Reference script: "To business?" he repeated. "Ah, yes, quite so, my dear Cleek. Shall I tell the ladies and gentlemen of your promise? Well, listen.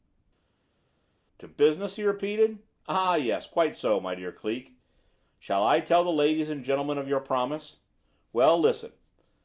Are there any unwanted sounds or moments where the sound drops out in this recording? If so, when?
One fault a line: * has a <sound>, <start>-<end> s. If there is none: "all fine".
all fine